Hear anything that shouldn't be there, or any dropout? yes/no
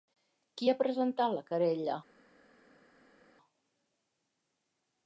no